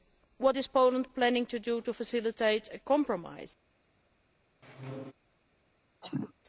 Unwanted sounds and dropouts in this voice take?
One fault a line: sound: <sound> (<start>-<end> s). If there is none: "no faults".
sound: squeak (4.6-5.1 s)
sound: cough (6.0-6.3 s)